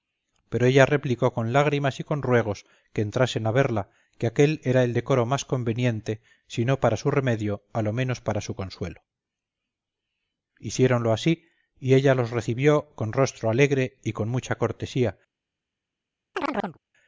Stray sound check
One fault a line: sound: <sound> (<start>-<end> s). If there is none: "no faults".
sound: chirp (16.3-16.8 s)